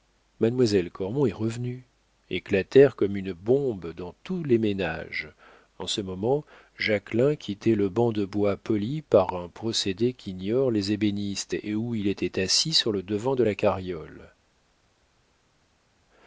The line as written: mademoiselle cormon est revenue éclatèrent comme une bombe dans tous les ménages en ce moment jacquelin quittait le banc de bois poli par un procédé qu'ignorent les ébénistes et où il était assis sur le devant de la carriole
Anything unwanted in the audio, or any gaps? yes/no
no